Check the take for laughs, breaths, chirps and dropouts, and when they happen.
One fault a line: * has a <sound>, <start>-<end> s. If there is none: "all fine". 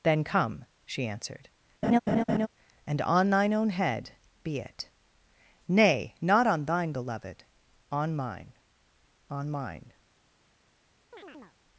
* has a laugh, 1.8-2.5 s
* has a chirp, 11.1-11.6 s